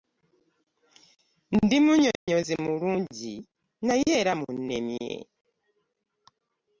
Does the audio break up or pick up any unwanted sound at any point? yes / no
yes